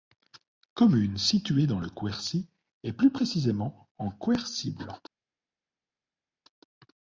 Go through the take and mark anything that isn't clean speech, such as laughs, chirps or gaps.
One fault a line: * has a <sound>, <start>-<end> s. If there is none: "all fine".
all fine